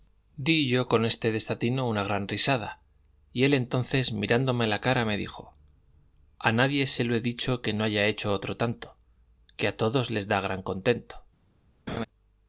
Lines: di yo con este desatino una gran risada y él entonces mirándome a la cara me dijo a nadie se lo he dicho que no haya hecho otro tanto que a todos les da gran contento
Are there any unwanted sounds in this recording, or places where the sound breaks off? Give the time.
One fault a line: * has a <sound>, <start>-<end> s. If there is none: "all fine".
* has a laugh, 11.9-12.1 s